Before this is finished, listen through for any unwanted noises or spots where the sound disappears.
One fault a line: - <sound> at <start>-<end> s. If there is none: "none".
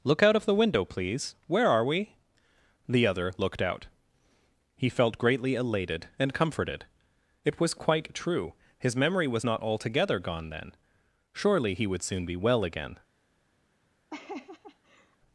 - laugh at 14.1-15.2 s